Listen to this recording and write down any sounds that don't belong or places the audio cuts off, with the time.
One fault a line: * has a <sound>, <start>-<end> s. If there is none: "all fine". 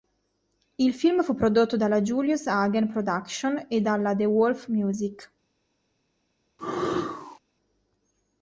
* has a sneeze, 6.6-7.4 s